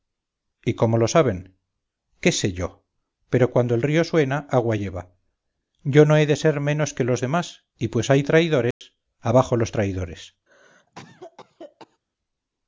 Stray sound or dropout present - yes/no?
yes